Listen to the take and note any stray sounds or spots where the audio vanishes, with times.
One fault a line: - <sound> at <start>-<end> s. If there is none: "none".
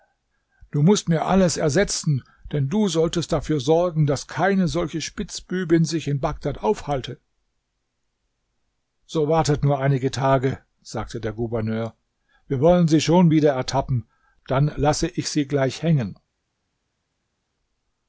none